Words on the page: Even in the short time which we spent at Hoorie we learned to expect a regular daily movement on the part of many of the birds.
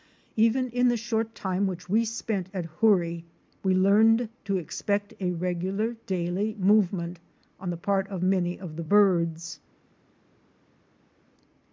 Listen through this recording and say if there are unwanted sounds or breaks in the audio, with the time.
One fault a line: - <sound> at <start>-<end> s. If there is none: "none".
none